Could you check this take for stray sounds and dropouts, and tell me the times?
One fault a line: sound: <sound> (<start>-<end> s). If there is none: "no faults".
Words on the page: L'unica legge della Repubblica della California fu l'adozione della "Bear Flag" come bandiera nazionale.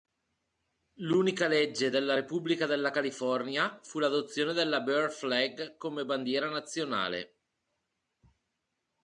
no faults